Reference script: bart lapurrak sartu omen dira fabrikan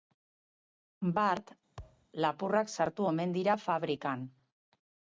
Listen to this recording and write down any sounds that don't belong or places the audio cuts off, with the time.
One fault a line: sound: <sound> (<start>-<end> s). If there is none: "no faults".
sound: thud (1.8-2.1 s)